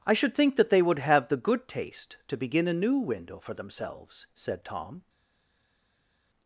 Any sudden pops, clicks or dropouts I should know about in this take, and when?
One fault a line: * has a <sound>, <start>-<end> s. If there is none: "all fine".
all fine